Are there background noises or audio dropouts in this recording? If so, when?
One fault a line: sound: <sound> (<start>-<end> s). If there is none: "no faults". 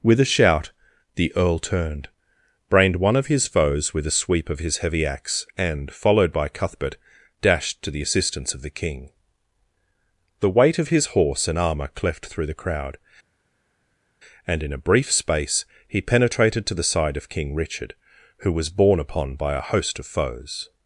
no faults